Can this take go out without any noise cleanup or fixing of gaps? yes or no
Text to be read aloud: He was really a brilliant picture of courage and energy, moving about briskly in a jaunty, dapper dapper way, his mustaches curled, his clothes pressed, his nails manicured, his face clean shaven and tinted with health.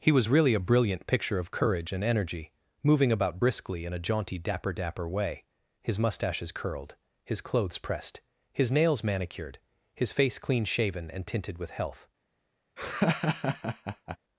no